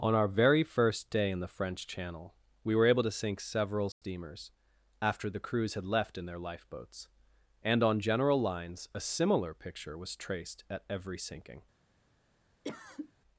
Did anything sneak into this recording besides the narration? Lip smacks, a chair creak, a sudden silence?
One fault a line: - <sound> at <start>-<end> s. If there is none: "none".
- dropout at 3.9-4.0 s
- cough at 12.6-13.1 s